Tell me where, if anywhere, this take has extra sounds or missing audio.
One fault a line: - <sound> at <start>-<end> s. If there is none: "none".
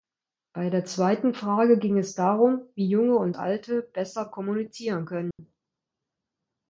- dropout at 5.3-5.4 s